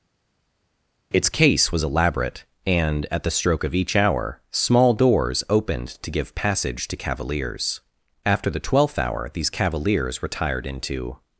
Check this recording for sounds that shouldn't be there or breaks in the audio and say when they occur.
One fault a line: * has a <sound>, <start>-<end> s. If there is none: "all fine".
all fine